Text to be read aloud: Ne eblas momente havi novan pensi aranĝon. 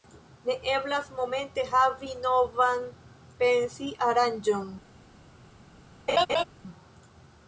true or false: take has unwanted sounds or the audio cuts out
true